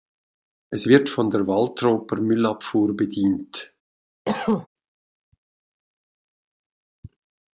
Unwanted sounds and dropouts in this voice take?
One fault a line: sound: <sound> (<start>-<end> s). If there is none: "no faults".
sound: cough (4.3-4.7 s)